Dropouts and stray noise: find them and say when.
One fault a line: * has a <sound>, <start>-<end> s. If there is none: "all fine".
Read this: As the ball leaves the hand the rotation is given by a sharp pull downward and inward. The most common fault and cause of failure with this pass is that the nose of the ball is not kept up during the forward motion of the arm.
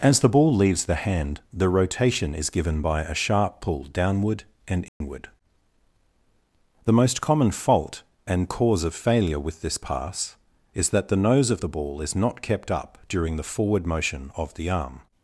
* has a dropout, 4.9-5.0 s